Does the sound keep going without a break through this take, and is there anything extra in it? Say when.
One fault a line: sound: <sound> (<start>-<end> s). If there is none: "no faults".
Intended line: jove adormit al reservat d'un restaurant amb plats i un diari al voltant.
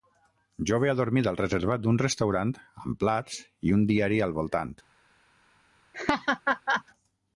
sound: laugh (5.9-6.8 s)